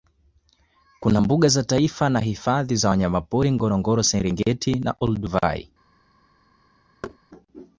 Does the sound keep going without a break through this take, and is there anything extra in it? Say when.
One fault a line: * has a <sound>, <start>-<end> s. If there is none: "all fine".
* has a thud, 7.0-7.2 s